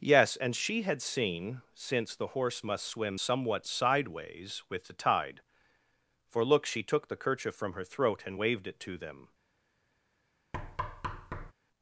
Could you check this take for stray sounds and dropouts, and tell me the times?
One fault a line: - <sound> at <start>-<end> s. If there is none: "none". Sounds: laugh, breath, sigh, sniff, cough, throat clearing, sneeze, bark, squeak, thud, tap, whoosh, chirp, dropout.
- thud at 10.5-11.5 s